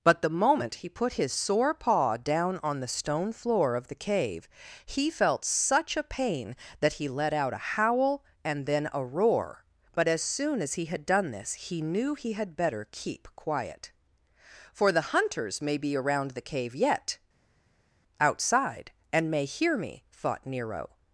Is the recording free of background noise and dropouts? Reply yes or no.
yes